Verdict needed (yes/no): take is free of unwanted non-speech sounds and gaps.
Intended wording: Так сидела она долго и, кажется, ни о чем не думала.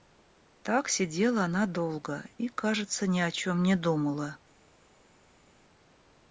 yes